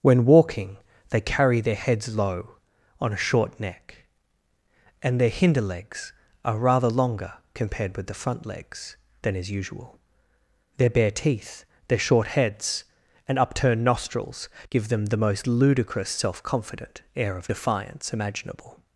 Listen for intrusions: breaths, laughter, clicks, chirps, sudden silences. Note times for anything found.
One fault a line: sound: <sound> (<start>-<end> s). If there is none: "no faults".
no faults